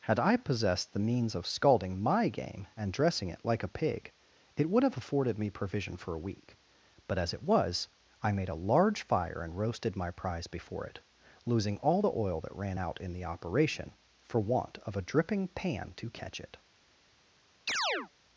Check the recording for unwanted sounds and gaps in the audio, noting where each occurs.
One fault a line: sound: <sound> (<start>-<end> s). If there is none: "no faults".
sound: chirp (17.7-18.1 s)